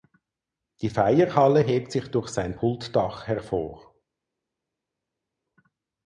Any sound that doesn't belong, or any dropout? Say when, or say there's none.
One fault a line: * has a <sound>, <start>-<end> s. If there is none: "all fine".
all fine